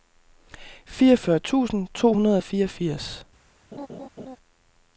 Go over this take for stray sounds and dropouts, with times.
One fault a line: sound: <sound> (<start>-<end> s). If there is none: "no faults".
sound: laugh (3.7-4.4 s)